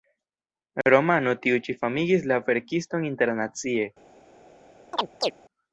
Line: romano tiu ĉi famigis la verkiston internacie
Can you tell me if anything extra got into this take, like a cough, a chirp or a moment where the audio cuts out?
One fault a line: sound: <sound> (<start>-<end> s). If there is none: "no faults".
sound: chirp (4.9-5.3 s)